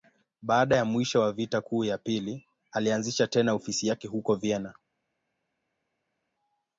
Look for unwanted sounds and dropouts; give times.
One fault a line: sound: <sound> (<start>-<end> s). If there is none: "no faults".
no faults